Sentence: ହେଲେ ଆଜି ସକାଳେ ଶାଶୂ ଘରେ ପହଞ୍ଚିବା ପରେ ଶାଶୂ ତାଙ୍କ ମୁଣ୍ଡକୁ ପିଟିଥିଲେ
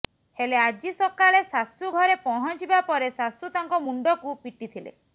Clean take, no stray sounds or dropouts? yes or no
yes